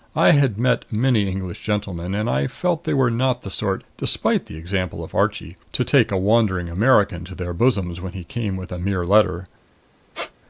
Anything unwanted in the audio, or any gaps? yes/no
yes